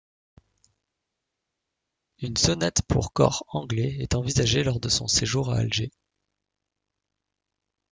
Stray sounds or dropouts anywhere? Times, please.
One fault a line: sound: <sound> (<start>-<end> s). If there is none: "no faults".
no faults